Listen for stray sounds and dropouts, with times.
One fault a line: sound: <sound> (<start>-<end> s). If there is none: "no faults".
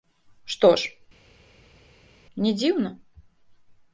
no faults